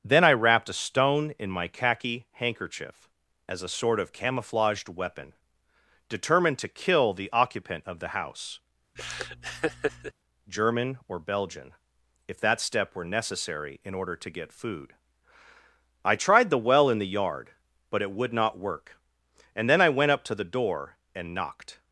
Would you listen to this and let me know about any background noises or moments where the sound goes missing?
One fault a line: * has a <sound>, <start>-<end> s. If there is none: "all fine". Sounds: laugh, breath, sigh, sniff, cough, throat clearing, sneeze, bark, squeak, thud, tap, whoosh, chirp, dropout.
* has a laugh, 9.0-10.1 s